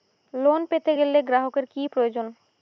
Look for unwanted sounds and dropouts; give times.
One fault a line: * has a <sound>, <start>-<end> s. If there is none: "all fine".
all fine